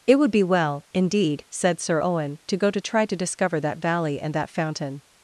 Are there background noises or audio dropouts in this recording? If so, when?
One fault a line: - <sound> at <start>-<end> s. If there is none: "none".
none